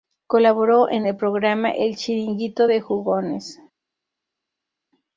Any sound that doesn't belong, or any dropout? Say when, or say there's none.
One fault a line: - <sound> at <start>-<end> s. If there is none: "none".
none